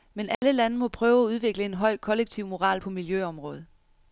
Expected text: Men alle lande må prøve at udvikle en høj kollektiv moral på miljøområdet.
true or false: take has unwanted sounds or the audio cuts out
true